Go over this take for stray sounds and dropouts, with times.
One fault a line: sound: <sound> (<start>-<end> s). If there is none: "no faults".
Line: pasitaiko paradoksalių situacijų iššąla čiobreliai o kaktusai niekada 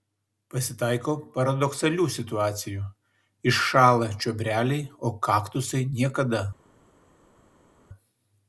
no faults